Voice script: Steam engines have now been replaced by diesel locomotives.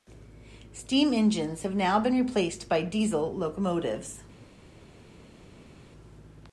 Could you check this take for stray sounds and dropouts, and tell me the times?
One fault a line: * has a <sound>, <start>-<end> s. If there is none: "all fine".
all fine